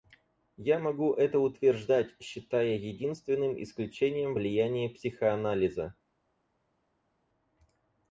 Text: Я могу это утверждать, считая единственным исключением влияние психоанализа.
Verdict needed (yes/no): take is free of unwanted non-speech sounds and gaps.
yes